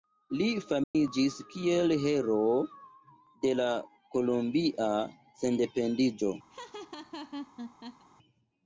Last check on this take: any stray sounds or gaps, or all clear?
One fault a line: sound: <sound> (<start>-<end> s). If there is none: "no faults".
sound: dropout (0.8-0.9 s)
sound: laugh (6.5-8.0 s)